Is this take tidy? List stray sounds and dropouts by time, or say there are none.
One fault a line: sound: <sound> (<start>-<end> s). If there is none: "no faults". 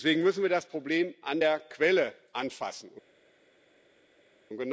no faults